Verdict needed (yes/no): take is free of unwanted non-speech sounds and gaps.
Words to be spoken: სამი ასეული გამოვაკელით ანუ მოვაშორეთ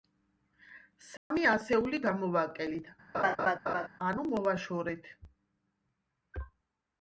no